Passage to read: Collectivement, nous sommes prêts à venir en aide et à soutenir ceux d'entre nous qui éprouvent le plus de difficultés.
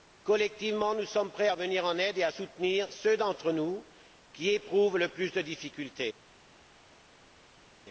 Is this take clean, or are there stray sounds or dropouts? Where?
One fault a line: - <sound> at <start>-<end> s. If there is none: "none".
none